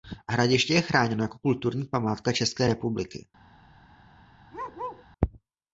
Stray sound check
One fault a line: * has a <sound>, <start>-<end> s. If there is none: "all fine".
* has a bark, 4.5-5.1 s